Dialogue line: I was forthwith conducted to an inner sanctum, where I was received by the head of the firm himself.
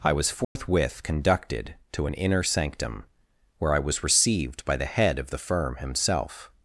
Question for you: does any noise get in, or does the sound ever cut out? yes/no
yes